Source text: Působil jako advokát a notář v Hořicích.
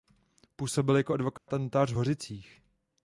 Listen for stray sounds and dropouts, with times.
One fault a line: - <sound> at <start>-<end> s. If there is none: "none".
- dropout at 1.4-1.5 s